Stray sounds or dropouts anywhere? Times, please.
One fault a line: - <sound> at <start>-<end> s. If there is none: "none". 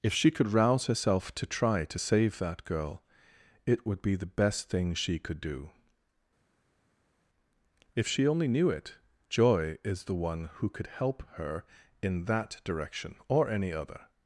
none